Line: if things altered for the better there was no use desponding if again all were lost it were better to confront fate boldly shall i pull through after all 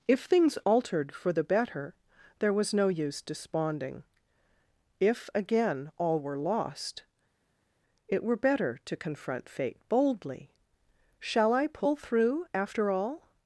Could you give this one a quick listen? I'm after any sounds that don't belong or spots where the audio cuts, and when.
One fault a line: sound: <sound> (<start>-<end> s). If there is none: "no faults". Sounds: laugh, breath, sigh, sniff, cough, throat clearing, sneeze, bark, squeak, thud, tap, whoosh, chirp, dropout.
no faults